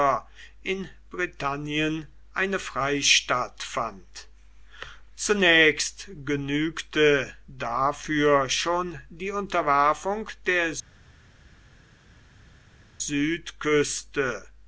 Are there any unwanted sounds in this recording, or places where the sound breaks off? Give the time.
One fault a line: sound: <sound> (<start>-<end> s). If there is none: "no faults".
no faults